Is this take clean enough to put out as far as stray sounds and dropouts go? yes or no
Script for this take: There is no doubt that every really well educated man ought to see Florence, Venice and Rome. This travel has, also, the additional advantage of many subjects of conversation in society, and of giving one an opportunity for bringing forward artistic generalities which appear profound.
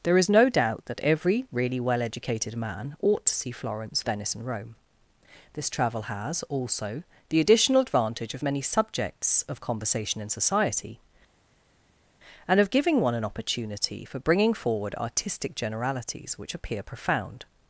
yes